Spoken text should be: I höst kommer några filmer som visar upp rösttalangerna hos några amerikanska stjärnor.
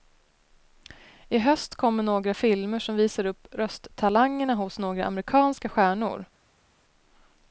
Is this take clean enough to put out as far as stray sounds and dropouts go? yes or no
yes